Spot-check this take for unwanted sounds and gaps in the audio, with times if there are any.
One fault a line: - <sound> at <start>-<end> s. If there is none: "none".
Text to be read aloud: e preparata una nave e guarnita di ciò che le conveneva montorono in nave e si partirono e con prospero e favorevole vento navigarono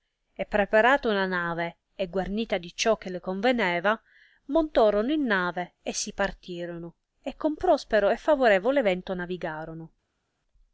none